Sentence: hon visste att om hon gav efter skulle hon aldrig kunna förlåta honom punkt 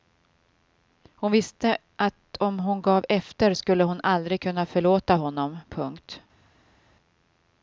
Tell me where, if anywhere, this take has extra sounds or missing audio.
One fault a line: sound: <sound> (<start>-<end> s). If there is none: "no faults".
no faults